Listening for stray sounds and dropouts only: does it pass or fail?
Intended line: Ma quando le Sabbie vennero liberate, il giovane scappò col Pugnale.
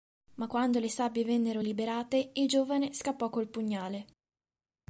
pass